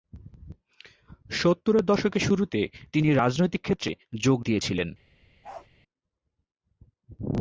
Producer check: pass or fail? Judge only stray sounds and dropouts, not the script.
fail